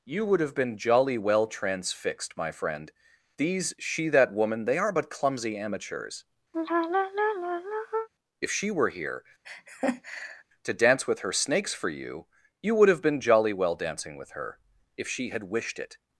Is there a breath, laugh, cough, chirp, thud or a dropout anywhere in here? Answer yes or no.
yes